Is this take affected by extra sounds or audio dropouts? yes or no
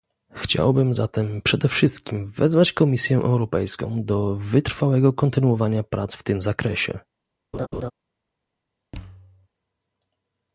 yes